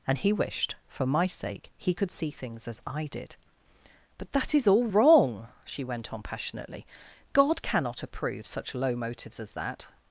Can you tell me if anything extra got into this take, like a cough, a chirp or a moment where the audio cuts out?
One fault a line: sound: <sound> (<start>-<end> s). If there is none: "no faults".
no faults